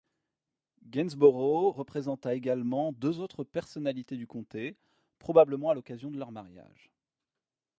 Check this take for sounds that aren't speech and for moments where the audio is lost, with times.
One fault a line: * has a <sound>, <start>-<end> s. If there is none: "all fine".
all fine